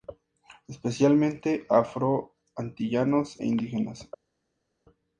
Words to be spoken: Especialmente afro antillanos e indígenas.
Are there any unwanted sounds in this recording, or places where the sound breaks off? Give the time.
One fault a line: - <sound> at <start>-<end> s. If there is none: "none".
none